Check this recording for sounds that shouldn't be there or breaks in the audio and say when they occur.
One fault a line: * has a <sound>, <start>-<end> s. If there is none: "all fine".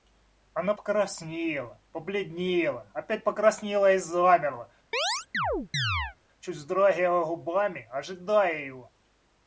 * has a chirp, 4.9-6.2 s